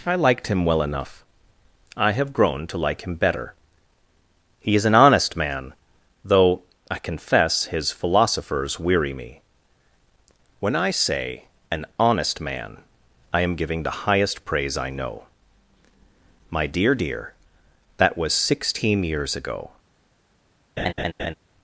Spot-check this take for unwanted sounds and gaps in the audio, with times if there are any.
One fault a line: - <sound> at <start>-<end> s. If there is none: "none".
- laugh at 20.8-21.3 s